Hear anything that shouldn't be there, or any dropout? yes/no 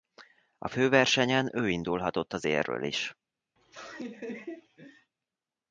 yes